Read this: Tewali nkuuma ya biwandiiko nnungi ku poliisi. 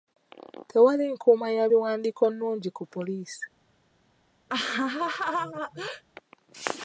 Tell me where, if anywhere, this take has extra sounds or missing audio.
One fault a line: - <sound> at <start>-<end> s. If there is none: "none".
- laugh at 4.5-6.0 s